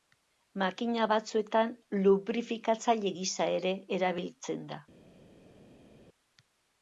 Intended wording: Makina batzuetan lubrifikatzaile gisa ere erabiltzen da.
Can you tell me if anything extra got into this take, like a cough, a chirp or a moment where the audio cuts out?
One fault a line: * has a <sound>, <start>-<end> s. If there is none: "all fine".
all fine